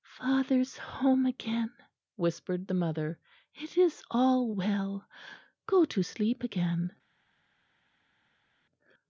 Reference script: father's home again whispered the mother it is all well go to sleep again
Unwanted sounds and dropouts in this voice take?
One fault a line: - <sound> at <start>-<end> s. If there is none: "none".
none